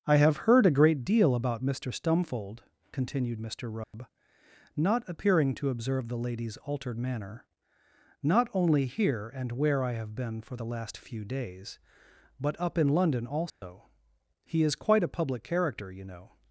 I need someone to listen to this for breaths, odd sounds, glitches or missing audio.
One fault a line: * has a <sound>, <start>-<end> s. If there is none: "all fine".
* has a dropout, 3.8-3.9 s
* has a dropout, 13.5-13.6 s